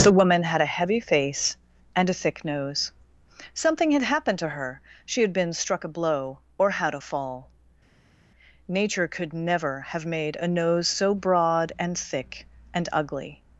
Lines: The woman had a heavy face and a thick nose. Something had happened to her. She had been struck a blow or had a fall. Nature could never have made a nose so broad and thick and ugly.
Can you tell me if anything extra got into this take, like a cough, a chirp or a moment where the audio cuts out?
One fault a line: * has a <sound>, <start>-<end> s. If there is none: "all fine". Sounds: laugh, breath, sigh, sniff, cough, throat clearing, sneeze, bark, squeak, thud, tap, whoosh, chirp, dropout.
all fine